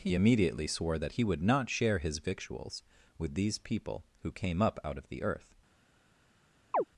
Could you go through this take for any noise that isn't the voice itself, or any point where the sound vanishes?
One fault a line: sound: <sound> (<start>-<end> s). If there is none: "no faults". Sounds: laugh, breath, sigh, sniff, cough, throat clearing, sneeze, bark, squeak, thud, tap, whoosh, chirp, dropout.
sound: chirp (6.7-6.8 s)